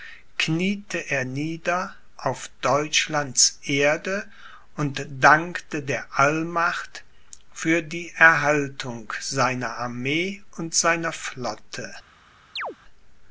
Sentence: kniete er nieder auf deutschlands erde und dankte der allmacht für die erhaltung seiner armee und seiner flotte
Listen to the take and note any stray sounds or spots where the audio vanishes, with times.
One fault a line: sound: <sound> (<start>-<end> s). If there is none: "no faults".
sound: chirp (12.6-12.8 s)